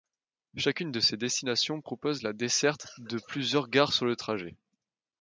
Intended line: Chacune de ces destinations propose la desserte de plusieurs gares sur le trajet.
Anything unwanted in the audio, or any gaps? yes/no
no